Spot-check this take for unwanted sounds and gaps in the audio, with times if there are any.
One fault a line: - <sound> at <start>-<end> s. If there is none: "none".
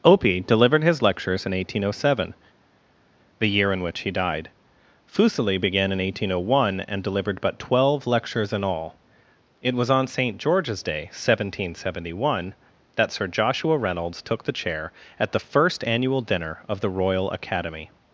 none